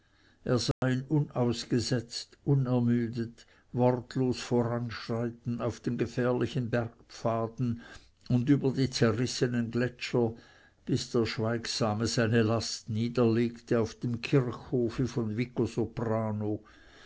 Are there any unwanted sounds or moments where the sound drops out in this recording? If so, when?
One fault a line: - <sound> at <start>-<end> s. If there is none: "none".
- dropout at 0.7-0.8 s